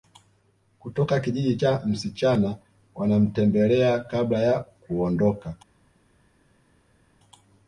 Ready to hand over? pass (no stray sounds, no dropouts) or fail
pass